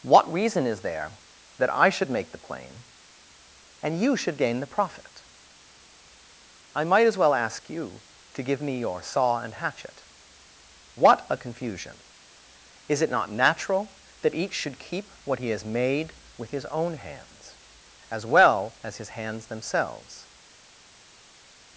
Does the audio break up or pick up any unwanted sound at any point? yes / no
no